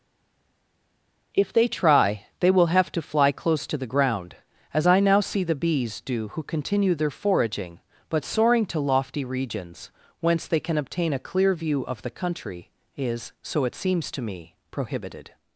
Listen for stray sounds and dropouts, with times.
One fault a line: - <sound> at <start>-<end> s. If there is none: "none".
none